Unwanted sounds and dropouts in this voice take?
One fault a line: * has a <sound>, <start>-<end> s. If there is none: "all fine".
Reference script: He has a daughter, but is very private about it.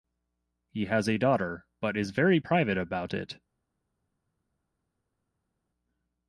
all fine